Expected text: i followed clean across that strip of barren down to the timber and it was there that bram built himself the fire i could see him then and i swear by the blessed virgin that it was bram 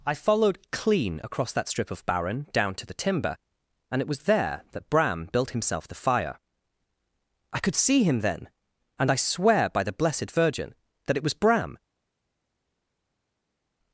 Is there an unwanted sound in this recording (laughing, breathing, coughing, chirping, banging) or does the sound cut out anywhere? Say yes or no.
no